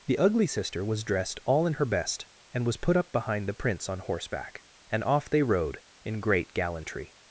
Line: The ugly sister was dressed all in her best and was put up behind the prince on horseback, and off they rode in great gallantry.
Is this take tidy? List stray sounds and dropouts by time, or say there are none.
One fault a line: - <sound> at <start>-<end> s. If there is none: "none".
none